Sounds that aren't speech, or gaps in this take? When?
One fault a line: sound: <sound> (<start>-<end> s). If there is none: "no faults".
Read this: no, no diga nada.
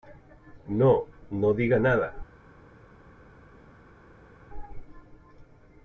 no faults